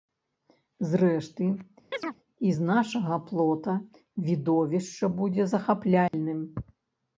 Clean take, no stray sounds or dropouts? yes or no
no